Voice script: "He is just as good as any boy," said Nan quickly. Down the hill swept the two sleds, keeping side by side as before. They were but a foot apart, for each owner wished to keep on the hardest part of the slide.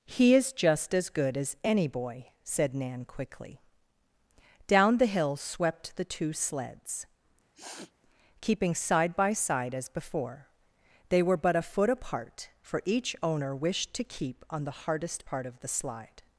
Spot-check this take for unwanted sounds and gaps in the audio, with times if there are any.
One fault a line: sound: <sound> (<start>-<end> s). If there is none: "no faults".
sound: sniff (7.5-7.9 s)